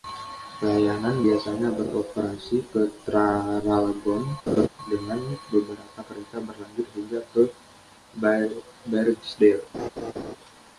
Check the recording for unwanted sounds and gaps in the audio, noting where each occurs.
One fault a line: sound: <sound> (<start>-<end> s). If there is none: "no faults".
sound: laugh (4.5-4.7 s)
sound: laugh (9.7-10.4 s)